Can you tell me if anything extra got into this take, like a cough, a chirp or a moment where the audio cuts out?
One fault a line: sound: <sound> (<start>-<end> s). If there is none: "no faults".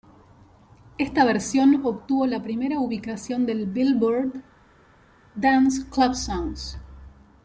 no faults